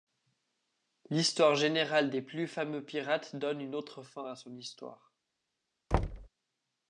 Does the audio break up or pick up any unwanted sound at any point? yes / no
yes